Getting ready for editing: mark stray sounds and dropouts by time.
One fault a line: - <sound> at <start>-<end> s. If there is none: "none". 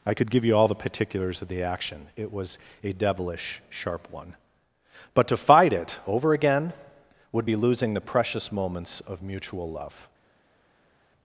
none